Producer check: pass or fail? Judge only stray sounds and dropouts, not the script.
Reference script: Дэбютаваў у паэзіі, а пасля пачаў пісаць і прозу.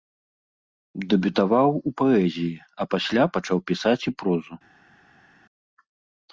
pass